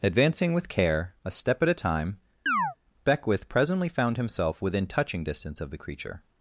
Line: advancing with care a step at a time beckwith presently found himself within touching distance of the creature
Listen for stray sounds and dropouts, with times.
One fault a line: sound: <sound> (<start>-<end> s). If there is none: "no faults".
sound: chirp (2.5-2.8 s)